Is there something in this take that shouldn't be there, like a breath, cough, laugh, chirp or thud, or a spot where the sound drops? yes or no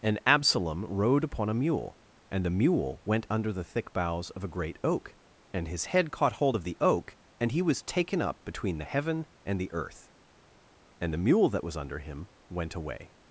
no